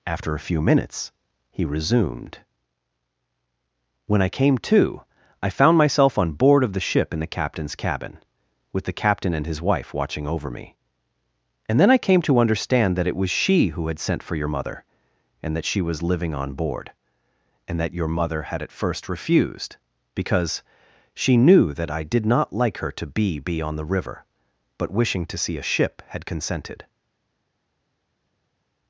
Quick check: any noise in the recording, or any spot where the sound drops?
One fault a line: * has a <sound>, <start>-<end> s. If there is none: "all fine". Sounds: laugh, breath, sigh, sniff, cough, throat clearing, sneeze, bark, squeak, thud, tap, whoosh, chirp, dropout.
all fine